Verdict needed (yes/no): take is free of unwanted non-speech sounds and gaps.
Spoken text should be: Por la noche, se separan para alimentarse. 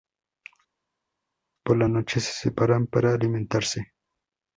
yes